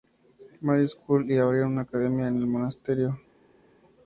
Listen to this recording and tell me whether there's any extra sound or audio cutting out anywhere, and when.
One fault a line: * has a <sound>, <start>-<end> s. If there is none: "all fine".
all fine